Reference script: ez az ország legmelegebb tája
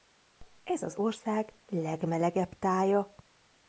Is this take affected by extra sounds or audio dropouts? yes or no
no